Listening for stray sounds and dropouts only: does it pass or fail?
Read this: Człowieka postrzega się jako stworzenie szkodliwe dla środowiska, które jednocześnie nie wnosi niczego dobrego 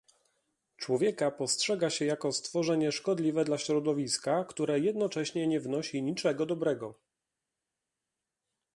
pass